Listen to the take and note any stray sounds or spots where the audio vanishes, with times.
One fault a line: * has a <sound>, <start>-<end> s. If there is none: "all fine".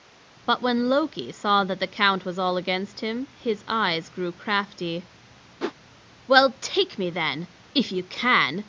* has a whoosh, 5.6-5.7 s